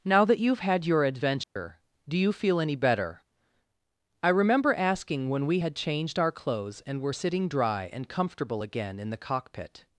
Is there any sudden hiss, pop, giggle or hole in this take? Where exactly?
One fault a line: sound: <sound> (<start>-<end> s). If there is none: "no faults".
sound: dropout (1.4-1.6 s)